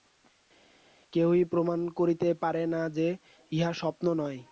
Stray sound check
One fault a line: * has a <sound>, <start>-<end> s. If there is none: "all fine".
all fine